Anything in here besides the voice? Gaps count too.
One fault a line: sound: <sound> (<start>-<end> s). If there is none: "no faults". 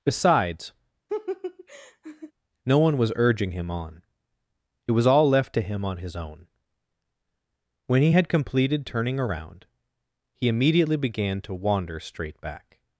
sound: laugh (1.1-2.3 s)